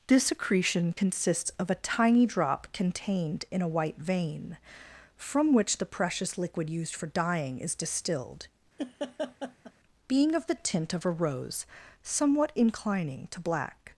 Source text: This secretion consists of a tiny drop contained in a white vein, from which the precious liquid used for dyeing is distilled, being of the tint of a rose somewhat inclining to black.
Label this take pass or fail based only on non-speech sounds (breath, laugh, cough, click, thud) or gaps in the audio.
fail